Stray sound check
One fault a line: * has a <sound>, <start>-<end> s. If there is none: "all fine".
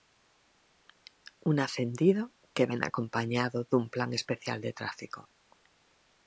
all fine